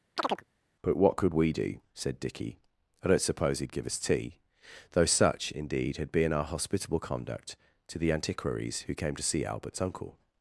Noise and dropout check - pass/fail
fail